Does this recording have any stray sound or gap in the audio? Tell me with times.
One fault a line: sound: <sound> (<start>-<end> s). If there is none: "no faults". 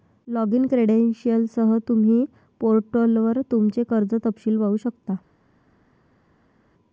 no faults